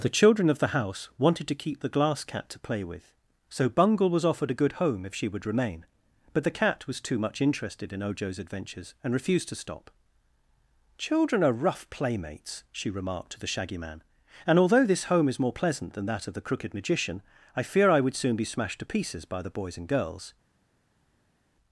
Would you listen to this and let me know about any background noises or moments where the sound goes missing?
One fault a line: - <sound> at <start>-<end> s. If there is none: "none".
none